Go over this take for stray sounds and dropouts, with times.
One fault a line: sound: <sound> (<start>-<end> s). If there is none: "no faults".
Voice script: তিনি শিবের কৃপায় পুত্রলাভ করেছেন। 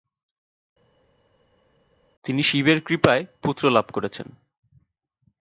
no faults